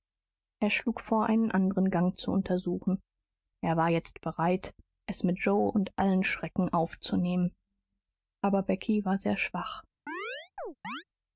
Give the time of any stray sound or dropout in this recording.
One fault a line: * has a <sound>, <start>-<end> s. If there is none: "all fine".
* has a chirp, 10.1-11.0 s